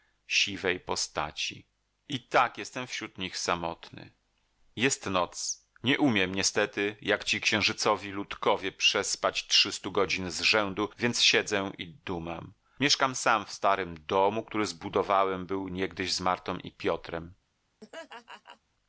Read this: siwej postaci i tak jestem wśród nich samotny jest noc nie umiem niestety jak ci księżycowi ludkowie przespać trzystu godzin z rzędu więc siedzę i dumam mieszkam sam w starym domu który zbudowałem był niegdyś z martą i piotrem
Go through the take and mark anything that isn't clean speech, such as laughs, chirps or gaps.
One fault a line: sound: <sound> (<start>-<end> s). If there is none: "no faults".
sound: laugh (17.8-18.6 s)